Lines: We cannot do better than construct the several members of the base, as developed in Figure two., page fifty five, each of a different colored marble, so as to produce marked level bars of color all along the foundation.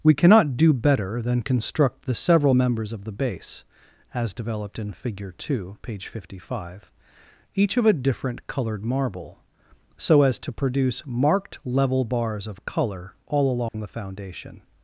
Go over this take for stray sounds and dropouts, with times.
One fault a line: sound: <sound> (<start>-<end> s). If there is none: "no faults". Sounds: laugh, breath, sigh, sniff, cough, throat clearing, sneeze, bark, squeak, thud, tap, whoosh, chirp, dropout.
sound: dropout (13.7-13.7 s)